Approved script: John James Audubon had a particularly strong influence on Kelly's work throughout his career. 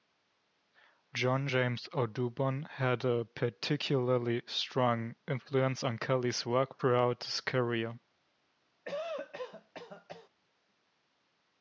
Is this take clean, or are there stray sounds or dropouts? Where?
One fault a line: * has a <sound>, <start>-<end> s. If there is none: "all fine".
* has a cough, 8.8-10.3 s